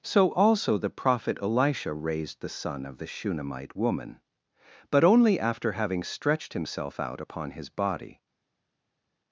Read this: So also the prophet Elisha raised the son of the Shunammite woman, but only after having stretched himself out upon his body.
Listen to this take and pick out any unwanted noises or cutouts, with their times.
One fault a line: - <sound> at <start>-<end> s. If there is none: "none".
none